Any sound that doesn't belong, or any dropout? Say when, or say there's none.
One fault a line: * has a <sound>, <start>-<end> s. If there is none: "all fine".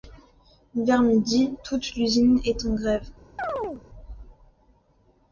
* has a chirp, 3.4-3.8 s